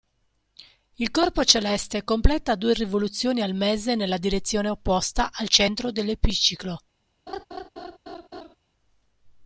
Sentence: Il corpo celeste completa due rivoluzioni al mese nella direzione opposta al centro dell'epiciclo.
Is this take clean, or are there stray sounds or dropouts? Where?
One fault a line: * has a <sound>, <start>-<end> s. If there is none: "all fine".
* has a laugh, 7.3-8.6 s